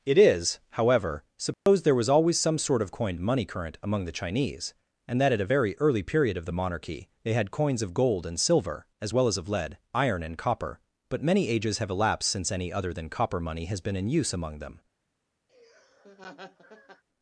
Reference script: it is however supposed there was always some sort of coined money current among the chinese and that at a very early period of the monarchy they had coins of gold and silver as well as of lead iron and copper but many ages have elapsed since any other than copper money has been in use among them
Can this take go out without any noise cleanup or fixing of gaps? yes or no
no